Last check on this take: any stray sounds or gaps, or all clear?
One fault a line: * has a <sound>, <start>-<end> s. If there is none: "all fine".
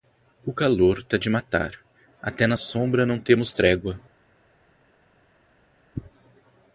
all fine